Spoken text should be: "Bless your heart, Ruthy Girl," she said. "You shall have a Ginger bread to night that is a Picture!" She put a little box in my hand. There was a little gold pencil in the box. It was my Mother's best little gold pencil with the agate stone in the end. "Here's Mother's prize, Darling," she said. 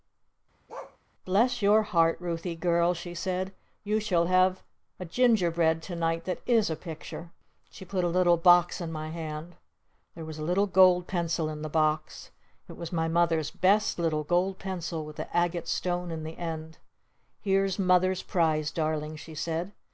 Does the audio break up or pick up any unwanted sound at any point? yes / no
yes